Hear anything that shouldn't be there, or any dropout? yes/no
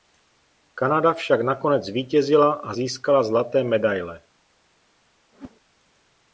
yes